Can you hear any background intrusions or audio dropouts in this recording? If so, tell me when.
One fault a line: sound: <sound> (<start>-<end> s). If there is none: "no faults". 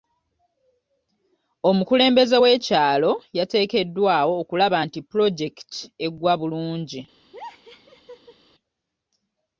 sound: laugh (7.3-8.4 s)